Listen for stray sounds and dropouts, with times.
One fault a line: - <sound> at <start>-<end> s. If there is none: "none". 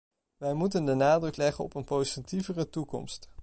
none